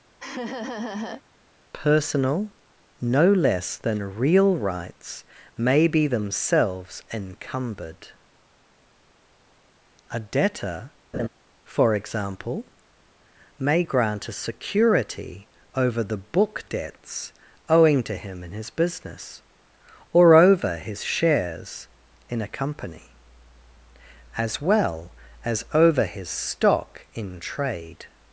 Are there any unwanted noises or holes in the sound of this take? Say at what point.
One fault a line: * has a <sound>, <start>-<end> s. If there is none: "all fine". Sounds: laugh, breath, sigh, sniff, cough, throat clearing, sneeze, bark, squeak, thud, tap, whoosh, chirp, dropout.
* has a laugh, 0.2-1.2 s
* has a laugh, 11.1-11.3 s